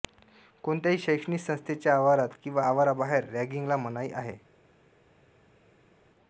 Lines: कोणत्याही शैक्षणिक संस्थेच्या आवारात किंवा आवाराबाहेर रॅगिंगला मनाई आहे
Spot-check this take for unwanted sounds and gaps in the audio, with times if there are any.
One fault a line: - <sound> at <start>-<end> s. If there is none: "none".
none